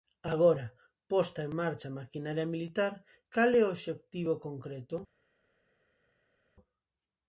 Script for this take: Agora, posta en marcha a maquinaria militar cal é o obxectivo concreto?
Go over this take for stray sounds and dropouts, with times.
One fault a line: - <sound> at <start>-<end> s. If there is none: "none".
none